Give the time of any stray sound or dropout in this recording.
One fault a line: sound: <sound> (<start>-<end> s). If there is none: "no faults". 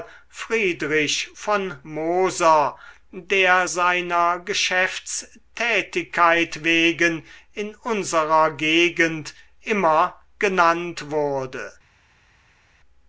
no faults